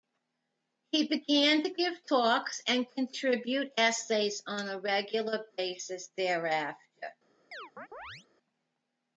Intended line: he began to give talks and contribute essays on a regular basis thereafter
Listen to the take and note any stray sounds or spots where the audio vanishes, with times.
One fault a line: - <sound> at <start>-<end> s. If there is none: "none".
- chirp at 7.5-8.3 s